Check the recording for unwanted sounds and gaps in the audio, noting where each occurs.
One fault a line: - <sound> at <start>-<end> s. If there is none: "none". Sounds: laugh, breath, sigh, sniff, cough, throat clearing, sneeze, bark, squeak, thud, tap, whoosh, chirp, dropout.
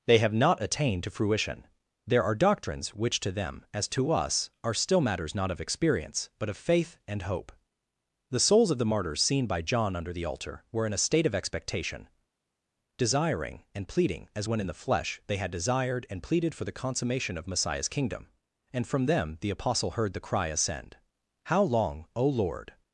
none